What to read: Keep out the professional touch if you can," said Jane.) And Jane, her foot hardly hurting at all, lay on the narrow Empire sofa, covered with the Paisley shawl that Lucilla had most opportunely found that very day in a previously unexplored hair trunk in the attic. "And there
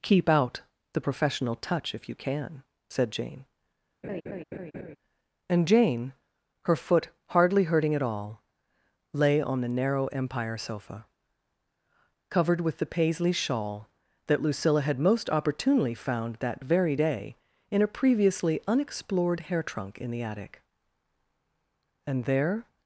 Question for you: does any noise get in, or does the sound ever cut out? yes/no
yes